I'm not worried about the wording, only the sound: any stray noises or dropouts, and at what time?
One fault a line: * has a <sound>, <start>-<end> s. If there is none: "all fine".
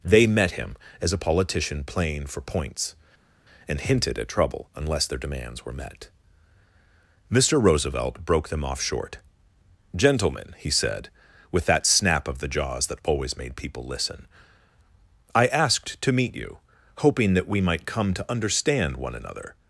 all fine